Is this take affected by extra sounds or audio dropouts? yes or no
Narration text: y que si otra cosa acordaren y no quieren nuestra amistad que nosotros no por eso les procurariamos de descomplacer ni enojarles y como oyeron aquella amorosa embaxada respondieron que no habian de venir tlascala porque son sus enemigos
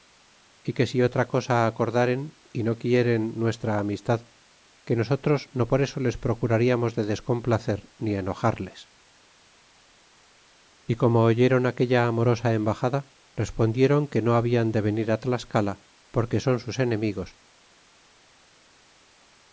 no